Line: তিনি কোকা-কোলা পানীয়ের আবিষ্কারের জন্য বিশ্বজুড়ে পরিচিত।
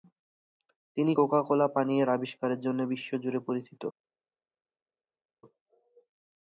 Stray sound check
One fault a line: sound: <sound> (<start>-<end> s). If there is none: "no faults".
no faults